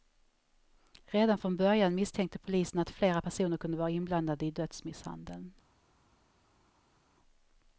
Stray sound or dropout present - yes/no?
no